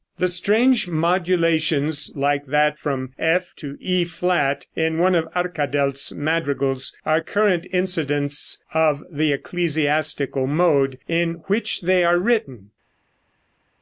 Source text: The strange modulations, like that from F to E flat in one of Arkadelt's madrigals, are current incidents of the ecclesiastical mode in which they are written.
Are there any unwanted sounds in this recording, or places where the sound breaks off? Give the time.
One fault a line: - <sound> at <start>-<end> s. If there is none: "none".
none